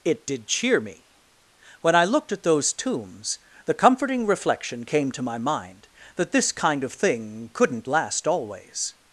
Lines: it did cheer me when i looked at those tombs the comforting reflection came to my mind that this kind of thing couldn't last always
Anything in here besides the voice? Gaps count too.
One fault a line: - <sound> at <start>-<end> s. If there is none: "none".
none